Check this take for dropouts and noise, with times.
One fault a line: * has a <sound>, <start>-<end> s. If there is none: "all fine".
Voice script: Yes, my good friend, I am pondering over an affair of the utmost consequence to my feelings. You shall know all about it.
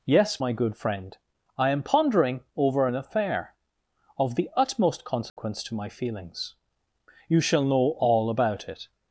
* has a dropout, 5.3-5.4 s